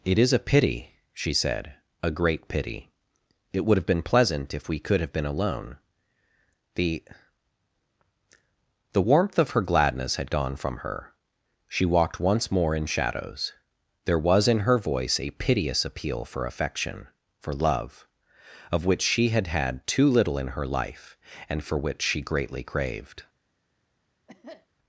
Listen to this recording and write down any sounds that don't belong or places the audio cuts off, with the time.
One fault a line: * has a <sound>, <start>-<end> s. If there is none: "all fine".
* has a cough, 24.3-24.7 s